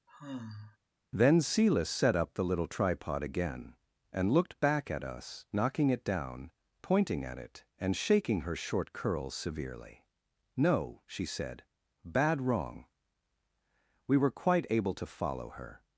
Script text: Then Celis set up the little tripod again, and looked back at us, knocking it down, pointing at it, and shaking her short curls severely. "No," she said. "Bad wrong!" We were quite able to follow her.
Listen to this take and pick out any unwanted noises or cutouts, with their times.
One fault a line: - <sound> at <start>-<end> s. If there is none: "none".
- sigh at 0.1-0.8 s